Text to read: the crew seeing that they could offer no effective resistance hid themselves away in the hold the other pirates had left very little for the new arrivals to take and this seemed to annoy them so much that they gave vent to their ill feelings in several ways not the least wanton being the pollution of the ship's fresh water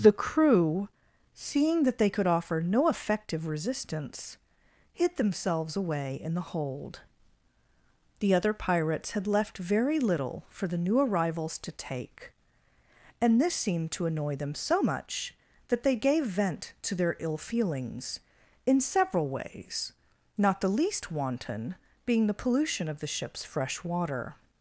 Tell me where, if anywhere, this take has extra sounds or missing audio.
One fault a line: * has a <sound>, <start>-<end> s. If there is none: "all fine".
all fine